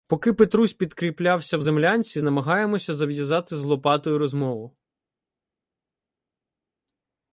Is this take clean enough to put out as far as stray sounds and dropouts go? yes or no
yes